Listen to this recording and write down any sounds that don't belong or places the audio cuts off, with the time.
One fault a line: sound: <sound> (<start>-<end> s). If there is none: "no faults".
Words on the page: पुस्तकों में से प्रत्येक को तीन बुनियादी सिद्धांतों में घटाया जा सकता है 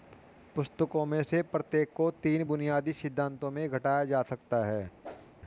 sound: whoosh (5.0-5.3 s)